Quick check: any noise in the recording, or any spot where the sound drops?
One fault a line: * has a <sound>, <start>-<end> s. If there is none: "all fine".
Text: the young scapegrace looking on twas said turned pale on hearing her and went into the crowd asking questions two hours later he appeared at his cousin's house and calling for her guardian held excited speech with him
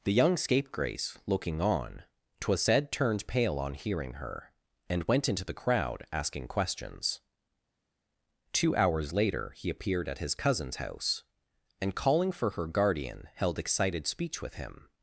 all fine